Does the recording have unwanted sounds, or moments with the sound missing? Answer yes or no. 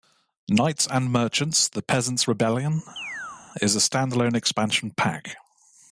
yes